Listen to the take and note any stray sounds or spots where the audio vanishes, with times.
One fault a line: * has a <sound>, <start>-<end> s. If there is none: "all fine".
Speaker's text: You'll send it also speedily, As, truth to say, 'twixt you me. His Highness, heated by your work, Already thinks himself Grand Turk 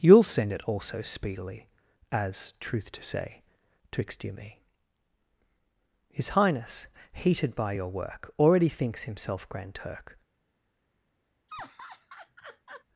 * has a laugh, 11.5-12.8 s